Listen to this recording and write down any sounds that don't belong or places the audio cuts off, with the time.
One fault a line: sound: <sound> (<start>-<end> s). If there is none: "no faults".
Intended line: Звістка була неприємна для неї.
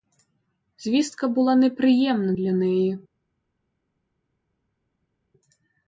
no faults